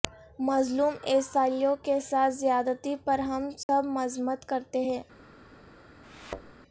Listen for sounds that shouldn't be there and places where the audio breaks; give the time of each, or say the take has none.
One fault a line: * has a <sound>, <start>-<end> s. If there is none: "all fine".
* has a dropout, 3.6-3.7 s
* has a thud, 6.0-6.5 s